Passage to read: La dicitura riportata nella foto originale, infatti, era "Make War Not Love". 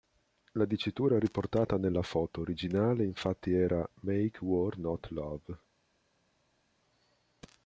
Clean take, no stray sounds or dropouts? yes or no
yes